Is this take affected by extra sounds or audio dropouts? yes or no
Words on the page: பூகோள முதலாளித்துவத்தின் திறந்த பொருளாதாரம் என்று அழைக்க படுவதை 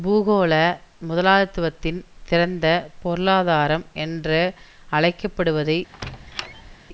yes